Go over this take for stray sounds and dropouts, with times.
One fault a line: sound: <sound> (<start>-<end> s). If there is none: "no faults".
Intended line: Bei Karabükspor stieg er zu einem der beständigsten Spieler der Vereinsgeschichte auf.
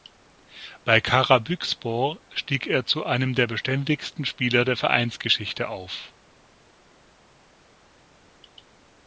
no faults